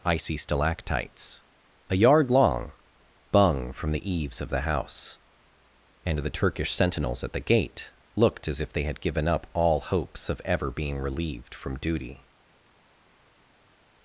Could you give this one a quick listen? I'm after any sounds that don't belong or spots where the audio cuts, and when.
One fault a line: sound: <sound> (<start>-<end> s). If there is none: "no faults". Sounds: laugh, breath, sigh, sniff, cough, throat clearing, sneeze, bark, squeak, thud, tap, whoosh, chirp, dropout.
no faults